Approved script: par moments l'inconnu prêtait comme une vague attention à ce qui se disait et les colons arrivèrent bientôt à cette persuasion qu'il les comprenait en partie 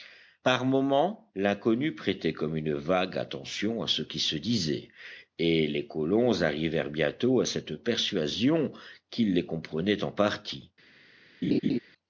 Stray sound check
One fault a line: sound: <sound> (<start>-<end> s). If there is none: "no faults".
sound: laugh (11.4-11.8 s)